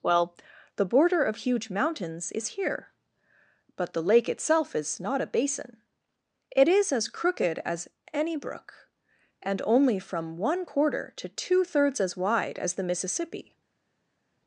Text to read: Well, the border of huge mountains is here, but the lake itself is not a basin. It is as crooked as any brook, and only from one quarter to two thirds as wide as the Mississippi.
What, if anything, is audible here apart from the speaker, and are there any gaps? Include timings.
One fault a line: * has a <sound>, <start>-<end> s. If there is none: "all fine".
all fine